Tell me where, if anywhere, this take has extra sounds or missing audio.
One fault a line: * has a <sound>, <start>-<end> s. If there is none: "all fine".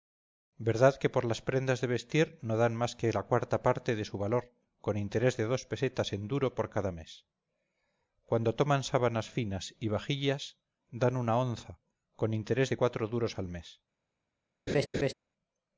* has a laugh, 14.7-15.1 s